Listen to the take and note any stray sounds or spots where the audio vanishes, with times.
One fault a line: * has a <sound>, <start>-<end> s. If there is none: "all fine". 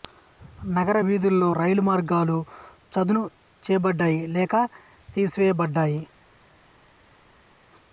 all fine